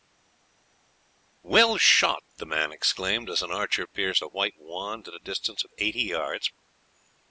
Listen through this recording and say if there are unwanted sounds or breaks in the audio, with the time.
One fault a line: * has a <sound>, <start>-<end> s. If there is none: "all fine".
all fine